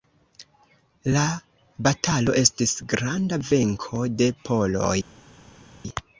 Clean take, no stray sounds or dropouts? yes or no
yes